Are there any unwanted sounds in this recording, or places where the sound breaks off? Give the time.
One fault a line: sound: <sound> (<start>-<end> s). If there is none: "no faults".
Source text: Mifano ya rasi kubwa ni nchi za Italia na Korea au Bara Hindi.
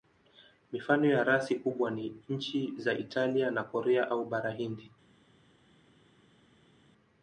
no faults